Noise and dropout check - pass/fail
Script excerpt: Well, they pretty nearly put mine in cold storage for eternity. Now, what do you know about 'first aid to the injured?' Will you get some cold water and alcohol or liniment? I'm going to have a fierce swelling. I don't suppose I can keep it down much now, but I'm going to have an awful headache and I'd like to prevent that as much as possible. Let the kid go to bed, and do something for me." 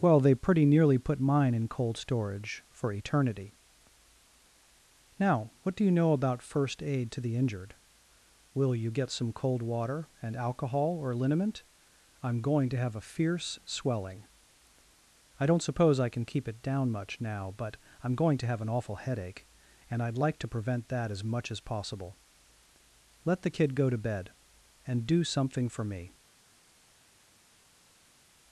pass